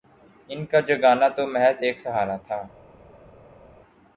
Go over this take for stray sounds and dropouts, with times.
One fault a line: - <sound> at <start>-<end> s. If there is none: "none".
none